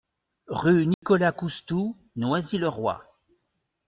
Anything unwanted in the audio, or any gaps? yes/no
yes